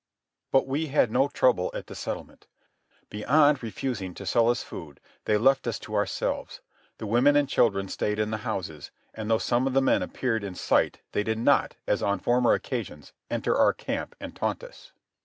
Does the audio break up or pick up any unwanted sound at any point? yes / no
no